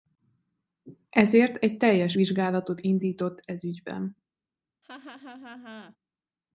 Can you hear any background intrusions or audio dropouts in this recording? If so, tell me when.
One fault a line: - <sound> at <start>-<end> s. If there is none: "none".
- laugh at 4.8-6.0 s